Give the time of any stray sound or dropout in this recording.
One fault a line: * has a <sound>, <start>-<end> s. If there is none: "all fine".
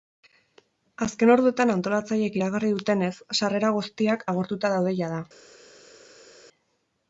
all fine